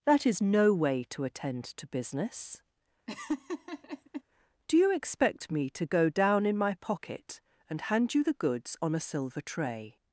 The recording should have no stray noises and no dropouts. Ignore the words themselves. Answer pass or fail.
fail